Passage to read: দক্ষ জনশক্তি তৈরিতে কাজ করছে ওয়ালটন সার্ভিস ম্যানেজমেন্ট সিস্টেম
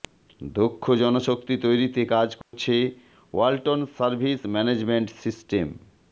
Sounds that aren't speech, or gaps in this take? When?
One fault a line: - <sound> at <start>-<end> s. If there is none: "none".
- dropout at 2.4-2.5 s